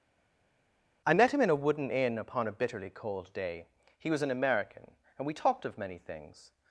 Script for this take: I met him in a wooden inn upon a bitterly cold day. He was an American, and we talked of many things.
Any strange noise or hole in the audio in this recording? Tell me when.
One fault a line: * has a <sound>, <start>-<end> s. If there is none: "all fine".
all fine